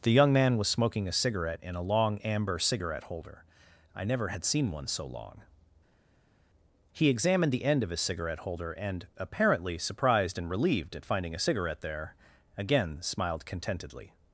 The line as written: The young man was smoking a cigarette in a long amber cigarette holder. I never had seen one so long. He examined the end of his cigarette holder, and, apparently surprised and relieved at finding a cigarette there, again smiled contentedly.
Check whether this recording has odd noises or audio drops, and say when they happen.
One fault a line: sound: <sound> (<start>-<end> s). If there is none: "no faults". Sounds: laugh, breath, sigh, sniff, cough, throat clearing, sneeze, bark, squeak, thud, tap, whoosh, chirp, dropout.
no faults